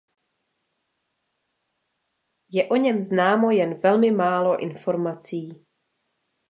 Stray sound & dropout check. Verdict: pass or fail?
pass